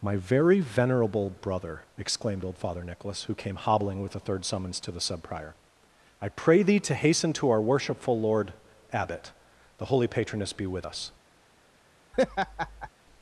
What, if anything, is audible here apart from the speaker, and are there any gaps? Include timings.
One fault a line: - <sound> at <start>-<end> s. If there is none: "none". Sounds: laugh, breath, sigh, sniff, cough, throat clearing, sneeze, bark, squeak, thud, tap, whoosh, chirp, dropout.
- laugh at 12.1-12.9 s